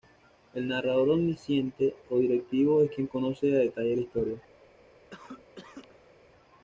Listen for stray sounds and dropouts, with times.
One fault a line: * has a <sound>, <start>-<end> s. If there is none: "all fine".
* has a cough, 5.1-6.1 s